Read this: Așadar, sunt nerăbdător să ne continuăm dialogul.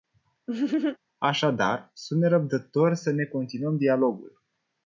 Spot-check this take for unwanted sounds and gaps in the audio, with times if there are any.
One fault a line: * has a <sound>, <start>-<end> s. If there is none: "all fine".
* has a laugh, 0.5-1.0 s